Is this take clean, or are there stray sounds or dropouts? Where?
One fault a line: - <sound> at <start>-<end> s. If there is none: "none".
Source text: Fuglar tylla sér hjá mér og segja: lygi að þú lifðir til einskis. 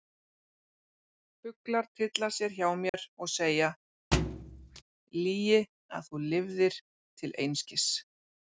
- dropout at 2.9-2.9 s
- thud at 4.1-4.8 s